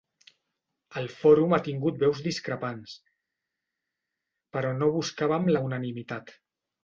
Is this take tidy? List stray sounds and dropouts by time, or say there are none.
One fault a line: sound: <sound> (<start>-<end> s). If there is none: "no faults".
no faults